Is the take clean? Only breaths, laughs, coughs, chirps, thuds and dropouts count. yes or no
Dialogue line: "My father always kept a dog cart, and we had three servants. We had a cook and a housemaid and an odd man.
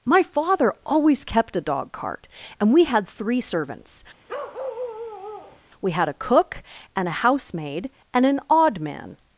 no